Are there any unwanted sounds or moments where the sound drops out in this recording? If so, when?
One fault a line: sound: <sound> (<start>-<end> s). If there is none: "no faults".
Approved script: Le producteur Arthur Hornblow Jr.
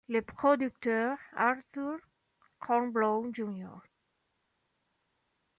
no faults